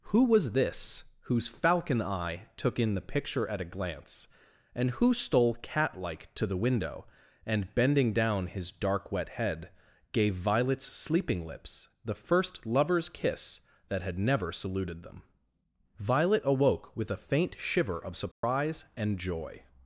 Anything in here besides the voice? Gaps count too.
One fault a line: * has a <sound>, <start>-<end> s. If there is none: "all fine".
* has a dropout, 18.3-18.4 s